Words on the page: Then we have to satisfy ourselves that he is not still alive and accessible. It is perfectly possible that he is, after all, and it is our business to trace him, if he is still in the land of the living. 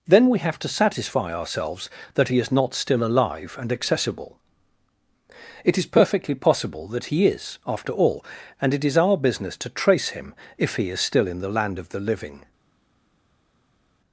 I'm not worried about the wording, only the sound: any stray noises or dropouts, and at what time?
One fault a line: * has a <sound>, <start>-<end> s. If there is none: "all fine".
all fine